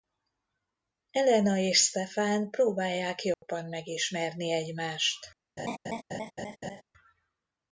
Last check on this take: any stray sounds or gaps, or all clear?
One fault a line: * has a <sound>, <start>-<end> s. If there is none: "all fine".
* has a dropout, 3.3-3.4 s
* has a laugh, 5.6-6.8 s